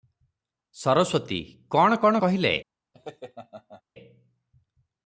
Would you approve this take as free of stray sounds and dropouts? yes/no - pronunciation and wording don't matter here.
no